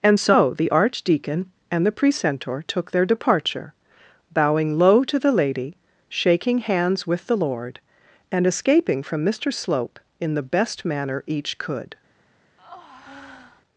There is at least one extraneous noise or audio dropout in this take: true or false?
true